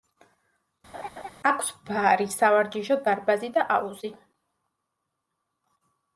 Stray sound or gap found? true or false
true